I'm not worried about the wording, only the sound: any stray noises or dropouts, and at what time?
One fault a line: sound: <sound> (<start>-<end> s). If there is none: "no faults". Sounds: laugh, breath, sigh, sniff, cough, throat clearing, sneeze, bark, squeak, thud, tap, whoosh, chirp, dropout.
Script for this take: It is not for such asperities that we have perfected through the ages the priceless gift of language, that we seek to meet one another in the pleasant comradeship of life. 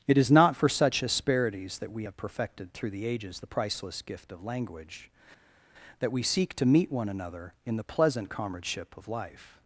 no faults